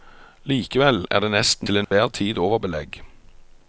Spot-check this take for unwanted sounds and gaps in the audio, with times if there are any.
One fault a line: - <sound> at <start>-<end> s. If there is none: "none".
- dropout at 1.8-1.9 s